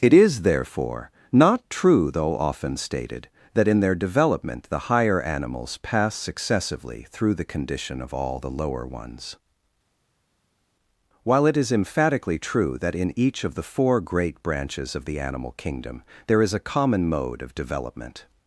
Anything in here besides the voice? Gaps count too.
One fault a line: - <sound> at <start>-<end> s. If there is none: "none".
none